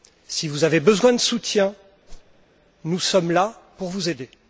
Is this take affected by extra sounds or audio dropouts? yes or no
yes